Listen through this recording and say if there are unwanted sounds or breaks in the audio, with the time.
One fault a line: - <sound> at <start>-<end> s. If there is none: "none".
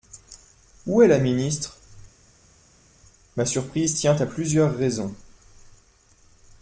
none